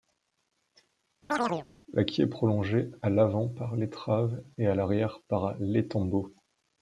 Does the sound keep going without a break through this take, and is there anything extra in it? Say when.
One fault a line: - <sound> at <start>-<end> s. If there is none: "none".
- chirp at 1.3-1.7 s